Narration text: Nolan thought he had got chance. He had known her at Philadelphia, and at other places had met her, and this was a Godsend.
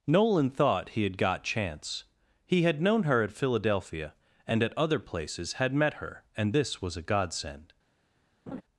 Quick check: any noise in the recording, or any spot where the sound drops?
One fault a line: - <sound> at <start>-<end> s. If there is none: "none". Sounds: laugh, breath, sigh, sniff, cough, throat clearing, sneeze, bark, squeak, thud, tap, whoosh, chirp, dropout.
- laugh at 8.5-8.6 s